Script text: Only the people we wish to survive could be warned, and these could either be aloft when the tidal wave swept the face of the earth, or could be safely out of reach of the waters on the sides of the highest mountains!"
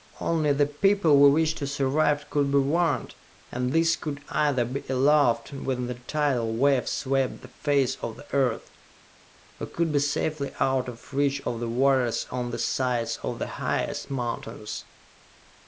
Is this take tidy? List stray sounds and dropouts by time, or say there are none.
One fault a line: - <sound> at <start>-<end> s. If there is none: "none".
none